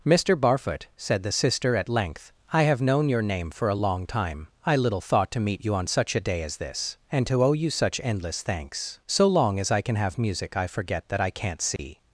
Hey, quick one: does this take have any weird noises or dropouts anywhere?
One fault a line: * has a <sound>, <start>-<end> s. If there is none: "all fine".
* has a dropout, 11.8-11.8 s